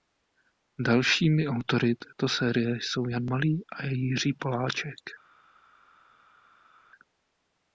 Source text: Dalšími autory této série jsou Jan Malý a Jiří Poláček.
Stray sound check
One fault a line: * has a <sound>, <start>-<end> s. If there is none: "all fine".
all fine